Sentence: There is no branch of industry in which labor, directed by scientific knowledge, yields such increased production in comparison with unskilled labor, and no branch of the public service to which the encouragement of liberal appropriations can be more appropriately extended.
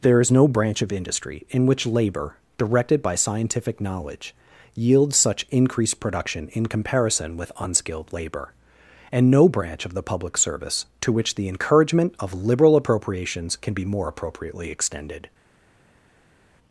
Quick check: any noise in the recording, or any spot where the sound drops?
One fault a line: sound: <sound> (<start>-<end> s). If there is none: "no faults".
no faults